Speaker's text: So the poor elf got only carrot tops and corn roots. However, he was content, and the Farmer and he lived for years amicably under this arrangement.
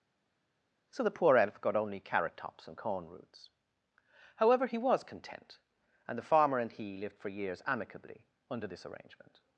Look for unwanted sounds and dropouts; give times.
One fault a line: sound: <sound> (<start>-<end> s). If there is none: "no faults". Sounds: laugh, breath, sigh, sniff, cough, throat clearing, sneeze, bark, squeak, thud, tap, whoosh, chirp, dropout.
no faults